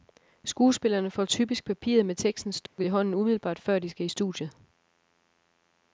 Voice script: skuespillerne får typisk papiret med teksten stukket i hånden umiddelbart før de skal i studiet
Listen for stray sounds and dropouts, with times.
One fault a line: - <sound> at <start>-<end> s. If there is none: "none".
- dropout at 2.7-2.8 s